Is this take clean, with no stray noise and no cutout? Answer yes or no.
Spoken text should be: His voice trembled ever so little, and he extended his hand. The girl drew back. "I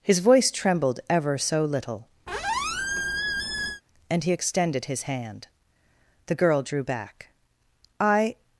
no